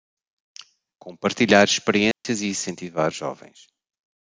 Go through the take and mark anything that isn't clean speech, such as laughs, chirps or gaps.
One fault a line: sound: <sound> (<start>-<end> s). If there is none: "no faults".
sound: dropout (2.1-2.2 s)